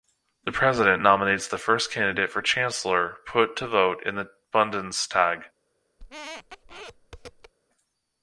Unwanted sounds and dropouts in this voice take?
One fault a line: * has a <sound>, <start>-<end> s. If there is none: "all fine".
* has a squeak, 6.0-7.5 s